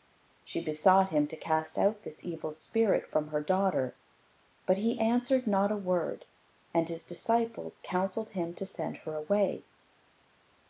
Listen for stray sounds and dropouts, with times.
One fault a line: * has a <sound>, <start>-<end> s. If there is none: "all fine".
all fine